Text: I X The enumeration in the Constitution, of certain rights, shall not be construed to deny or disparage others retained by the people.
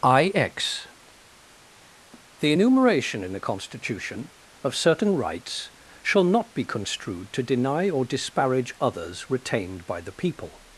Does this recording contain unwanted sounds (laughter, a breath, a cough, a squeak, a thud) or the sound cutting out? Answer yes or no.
no